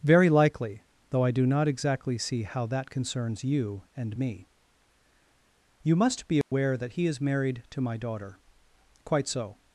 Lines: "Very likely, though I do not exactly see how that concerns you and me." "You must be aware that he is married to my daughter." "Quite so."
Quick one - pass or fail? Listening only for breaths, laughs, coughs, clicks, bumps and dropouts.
fail